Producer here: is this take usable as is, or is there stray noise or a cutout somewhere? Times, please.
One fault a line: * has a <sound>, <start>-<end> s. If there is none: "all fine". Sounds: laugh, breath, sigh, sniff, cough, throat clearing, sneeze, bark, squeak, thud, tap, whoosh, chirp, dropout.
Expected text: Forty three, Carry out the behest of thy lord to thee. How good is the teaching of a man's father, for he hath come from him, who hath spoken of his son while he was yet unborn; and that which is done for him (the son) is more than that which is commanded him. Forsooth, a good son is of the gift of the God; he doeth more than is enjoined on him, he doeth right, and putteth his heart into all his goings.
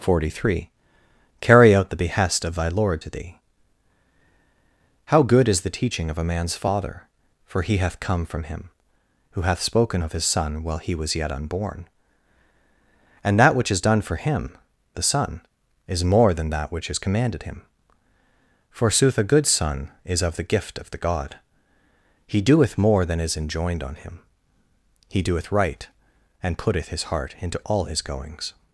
all fine